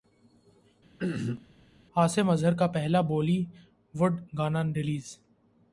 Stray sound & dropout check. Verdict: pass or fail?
fail